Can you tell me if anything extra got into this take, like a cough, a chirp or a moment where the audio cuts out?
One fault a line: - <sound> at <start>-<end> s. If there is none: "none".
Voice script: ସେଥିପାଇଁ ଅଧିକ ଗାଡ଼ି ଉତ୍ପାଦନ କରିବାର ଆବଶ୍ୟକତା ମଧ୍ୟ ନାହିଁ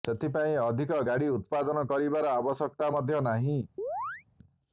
- chirp at 3.8-4.2 s